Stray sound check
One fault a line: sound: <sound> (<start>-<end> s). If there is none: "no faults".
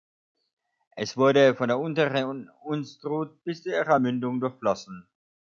no faults